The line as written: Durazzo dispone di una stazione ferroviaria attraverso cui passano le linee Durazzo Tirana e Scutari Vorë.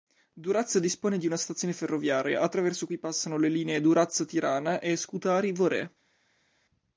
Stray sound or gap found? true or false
false